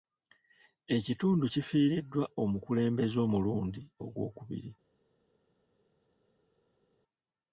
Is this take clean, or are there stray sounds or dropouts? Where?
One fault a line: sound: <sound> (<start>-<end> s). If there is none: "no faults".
no faults